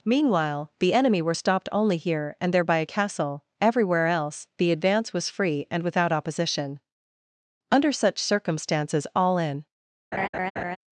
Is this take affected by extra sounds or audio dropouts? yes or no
yes